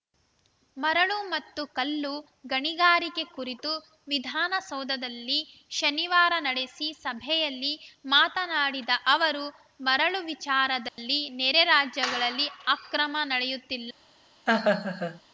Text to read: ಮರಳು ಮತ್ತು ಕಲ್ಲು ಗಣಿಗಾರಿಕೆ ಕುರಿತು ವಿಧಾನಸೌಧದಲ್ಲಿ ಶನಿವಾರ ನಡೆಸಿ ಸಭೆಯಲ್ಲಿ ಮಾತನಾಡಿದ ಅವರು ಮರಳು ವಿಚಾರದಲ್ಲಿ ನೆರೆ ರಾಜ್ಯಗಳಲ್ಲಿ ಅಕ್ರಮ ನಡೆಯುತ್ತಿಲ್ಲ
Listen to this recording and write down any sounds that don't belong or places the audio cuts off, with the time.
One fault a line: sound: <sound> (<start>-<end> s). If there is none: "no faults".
sound: dropout (10.9-11.0 s)
sound: laugh (14.5-15.2 s)